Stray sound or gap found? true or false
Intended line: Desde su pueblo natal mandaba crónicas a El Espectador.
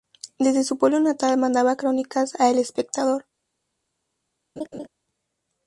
true